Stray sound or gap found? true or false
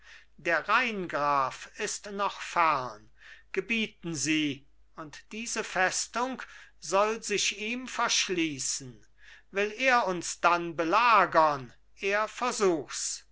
false